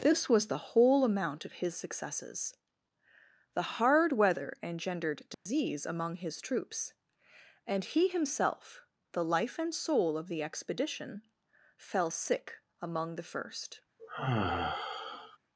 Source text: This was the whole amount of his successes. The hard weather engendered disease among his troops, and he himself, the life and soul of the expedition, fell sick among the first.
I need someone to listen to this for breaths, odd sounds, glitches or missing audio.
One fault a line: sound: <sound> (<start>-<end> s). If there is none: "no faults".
sound: dropout (5.3-5.5 s)
sound: sigh (14.0-15.4 s)